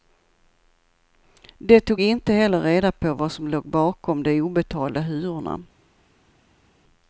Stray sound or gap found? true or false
false